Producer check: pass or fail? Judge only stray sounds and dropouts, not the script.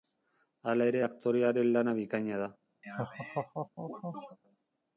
fail